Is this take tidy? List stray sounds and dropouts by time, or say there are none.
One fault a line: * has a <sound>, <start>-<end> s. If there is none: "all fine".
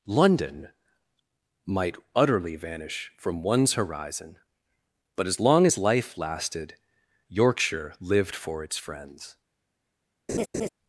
* has a laugh, 10.3-10.7 s